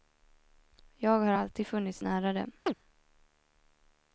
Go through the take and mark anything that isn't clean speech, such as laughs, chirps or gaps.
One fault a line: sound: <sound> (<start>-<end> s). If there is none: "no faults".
sound: chirp (2.7-2.7 s)